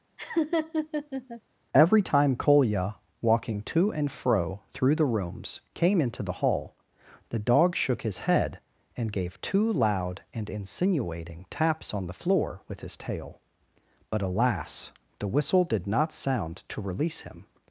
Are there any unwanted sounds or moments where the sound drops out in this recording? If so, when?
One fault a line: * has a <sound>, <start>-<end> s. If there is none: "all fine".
* has a laugh, 0.2-1.4 s